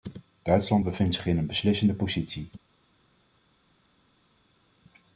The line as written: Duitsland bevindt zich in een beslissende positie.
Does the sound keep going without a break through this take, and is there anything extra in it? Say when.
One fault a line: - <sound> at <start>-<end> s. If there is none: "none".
none